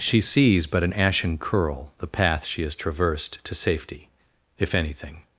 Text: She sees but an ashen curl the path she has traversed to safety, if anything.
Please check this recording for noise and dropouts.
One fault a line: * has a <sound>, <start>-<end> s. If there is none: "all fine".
all fine